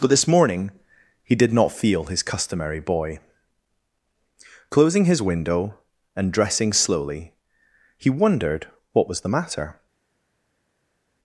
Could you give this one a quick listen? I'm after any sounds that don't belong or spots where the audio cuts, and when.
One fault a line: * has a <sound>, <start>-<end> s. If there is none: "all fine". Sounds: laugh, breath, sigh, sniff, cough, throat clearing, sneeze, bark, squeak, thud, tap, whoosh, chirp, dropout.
all fine